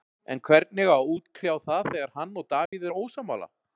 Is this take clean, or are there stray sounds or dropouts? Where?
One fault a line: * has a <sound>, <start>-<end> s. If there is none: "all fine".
* has a dropout, 2.7-2.7 s